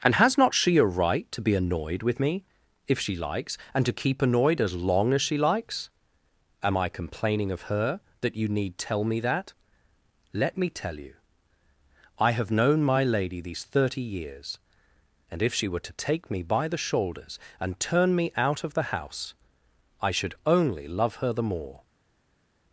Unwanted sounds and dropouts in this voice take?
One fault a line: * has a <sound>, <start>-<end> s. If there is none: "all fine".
all fine